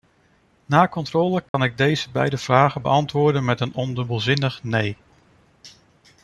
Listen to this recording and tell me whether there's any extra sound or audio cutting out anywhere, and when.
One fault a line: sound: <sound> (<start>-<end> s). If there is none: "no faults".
sound: dropout (1.5-1.5 s)